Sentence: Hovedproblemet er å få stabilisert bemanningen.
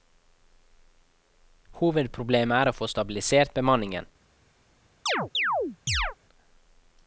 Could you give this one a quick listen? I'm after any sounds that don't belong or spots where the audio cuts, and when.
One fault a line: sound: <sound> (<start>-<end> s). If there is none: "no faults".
sound: chirp (5.1-6.2 s)